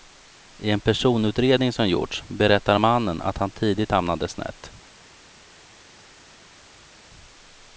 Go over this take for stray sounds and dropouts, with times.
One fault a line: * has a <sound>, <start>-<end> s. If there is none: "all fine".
all fine